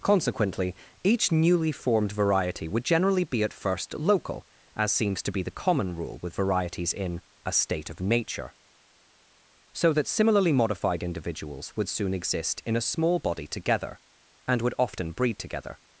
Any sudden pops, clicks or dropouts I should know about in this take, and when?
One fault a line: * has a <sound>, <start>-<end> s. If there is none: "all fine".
all fine